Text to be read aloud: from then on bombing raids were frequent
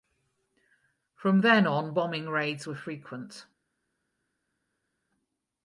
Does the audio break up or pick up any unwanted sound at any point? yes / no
no